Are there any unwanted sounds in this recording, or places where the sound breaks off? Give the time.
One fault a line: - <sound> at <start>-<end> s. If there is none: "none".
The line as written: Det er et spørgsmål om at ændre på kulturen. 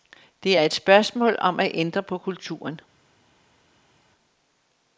none